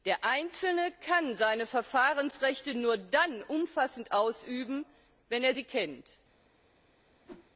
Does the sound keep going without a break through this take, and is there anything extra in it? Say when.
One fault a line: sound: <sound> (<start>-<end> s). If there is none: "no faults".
sound: whoosh (7.2-7.5 s)